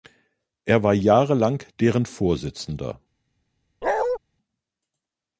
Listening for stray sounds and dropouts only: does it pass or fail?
fail